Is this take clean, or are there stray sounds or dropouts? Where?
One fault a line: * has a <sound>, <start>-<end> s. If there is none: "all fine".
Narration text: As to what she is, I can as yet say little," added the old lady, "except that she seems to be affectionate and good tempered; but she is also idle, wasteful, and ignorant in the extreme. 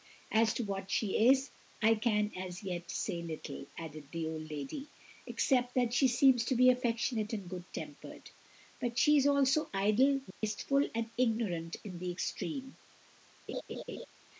* has a dropout, 10.3-10.4 s
* has a laugh, 13.5-14.1 s